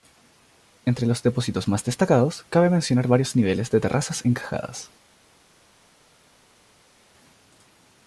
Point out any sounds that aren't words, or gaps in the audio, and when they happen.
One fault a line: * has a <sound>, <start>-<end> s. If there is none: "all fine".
all fine